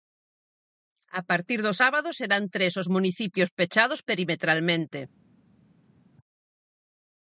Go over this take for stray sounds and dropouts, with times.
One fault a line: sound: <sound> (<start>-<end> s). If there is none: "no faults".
no faults